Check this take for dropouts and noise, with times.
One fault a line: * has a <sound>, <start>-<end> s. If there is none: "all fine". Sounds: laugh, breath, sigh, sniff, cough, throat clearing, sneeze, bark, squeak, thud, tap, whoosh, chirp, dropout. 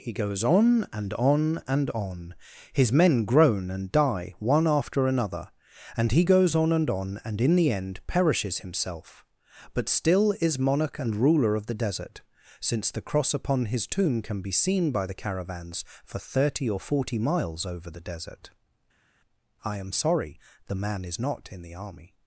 all fine